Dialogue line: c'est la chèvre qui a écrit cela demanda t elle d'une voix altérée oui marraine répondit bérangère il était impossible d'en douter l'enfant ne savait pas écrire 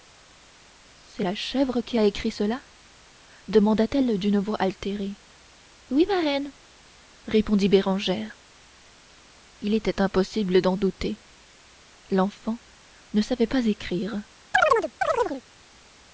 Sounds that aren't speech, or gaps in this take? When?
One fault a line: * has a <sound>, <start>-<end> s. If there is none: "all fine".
* has a chirp, 14.5-15.4 s